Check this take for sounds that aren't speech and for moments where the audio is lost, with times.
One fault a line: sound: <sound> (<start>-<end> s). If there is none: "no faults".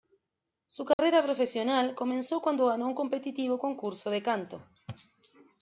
sound: dropout (0.9-1.0 s)